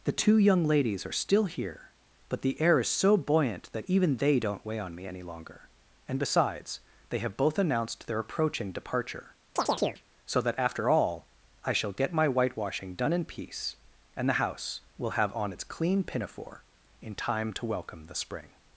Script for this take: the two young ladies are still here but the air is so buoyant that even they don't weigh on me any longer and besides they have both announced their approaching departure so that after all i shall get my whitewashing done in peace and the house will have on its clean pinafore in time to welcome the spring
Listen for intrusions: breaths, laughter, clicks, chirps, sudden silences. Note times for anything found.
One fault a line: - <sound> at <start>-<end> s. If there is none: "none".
- chirp at 9.6-10.0 s